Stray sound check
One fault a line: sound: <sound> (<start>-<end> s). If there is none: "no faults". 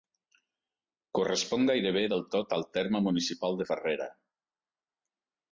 no faults